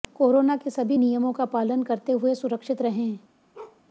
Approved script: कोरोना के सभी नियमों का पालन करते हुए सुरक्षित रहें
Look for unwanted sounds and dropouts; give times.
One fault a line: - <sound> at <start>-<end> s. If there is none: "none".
- bark at 3.5-3.8 s